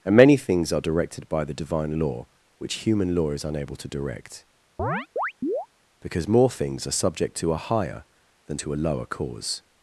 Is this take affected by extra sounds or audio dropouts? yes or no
yes